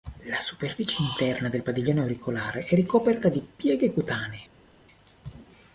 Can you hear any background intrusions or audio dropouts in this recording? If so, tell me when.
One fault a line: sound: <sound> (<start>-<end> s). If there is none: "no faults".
no faults